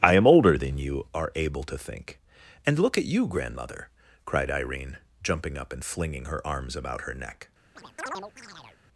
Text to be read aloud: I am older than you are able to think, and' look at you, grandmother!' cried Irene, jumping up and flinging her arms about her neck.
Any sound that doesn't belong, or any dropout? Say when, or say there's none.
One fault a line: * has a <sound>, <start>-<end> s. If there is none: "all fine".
* has a chirp, 7.8-8.8 s